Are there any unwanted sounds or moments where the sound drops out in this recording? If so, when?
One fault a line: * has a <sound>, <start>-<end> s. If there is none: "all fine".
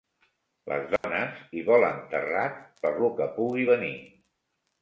* has a dropout, 1.0-1.0 s